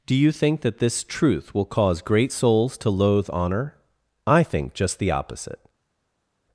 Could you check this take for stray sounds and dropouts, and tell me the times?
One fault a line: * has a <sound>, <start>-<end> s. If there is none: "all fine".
all fine